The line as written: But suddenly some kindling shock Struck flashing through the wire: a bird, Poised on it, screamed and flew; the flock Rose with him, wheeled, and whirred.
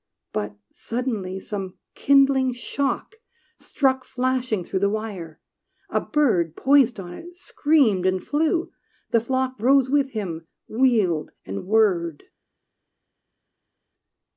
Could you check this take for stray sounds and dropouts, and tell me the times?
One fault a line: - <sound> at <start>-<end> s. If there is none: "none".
none